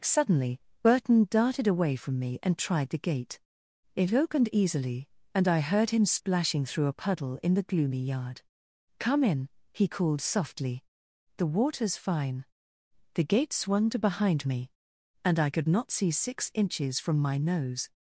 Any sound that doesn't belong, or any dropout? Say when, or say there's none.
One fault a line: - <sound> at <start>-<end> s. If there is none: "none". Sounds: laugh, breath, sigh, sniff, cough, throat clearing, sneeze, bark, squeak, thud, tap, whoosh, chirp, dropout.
none